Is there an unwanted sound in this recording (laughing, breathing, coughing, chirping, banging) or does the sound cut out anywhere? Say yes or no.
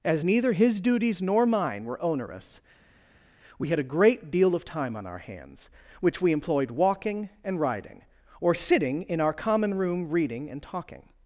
no